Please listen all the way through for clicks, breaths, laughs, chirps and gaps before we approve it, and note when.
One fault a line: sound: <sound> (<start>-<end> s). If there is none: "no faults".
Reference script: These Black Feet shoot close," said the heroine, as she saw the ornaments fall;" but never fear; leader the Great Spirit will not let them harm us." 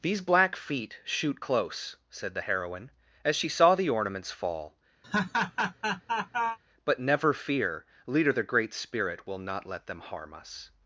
sound: laugh (5.0-6.6 s)